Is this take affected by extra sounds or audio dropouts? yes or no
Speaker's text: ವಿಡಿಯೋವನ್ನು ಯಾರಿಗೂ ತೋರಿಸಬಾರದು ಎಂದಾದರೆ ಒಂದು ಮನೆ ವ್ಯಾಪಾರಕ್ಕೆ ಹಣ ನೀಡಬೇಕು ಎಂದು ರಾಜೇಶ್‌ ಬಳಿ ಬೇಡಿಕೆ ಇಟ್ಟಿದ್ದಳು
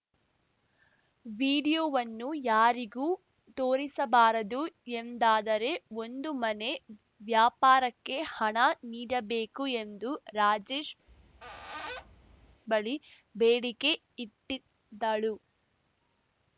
yes